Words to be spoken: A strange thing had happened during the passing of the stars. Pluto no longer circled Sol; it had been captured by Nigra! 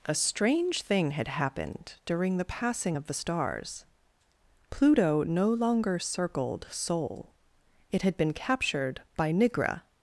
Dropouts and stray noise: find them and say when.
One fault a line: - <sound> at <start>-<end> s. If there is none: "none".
none